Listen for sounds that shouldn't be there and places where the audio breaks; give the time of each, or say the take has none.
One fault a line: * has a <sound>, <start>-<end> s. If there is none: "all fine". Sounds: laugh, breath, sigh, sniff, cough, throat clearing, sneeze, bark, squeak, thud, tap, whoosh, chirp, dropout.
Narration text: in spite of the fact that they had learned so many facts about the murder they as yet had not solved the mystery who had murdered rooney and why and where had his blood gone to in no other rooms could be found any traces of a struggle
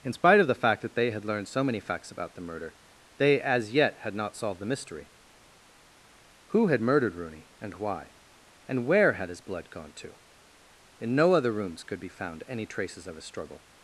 all fine